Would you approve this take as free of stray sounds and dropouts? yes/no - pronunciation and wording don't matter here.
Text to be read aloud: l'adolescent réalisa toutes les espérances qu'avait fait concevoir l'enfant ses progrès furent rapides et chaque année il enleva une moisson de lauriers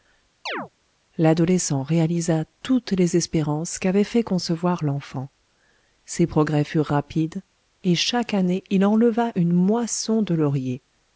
no